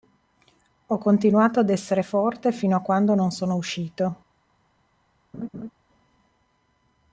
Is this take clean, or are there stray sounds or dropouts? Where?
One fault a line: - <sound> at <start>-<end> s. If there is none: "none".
- laugh at 5.3-5.7 s